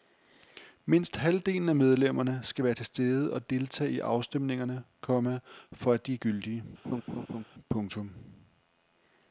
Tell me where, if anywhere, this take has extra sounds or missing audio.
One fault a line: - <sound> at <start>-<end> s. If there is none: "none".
- laugh at 6.8-7.4 s